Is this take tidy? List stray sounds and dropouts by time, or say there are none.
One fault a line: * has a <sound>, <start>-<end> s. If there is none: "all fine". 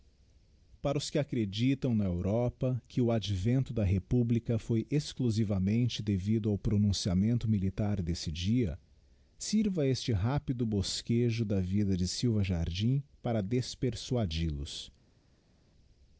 all fine